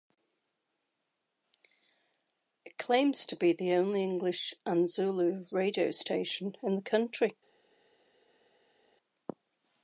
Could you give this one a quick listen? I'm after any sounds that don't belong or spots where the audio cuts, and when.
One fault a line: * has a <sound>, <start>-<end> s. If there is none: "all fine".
all fine